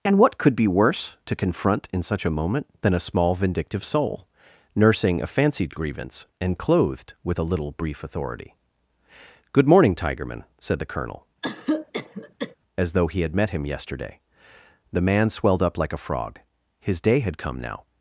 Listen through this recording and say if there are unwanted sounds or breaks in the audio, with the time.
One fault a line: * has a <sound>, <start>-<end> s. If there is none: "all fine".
* has a cough, 11.4-12.6 s